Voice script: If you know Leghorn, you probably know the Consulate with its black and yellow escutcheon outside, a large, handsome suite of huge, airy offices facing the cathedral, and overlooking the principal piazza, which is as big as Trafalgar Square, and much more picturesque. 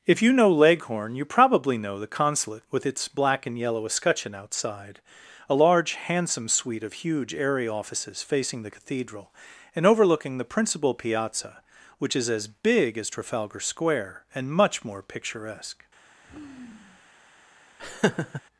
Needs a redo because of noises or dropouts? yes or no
yes